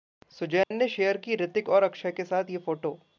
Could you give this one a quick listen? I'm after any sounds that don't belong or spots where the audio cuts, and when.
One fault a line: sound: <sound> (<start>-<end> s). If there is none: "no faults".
sound: dropout (0.6-0.7 s)